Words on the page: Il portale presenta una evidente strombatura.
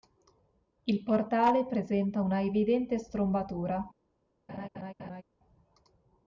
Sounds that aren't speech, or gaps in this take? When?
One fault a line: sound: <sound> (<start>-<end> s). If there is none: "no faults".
sound: laugh (4.5-5.2 s)